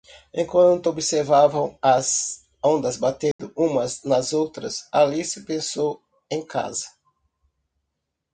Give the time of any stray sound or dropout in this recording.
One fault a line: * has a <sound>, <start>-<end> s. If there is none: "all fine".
* has a dropout, 3.3-3.4 s